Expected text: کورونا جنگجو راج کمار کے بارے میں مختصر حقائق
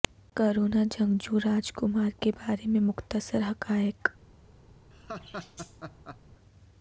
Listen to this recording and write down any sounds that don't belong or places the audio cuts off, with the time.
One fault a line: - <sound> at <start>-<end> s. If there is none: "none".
- laugh at 4.9-6.2 s